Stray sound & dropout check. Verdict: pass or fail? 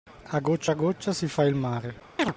fail